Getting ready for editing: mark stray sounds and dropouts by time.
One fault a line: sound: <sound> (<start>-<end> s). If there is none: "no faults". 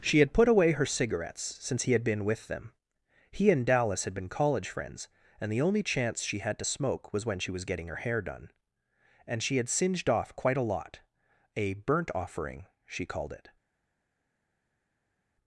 no faults